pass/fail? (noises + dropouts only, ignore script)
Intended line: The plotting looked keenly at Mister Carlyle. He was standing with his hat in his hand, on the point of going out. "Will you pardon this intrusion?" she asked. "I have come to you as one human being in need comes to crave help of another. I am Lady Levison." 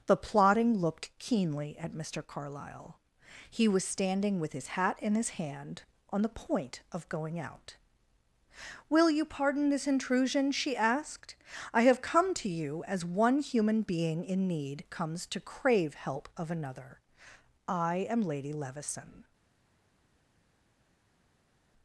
pass